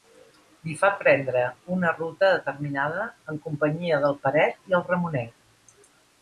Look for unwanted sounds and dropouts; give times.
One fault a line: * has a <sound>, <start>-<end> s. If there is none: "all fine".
all fine